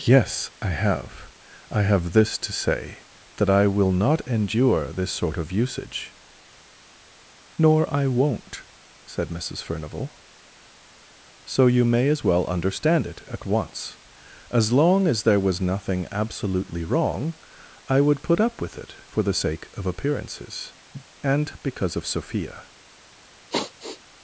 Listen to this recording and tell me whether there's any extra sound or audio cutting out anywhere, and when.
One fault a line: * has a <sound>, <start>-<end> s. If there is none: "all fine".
* has a cough, 20.9-21.1 s
* has a sigh, 23.5-24.0 s